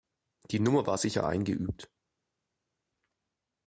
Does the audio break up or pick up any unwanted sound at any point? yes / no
no